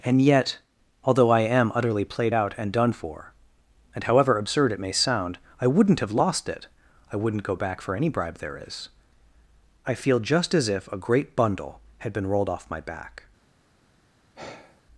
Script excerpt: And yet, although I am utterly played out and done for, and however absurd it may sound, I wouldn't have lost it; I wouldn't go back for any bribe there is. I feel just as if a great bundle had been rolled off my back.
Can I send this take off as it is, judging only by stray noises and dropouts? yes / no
no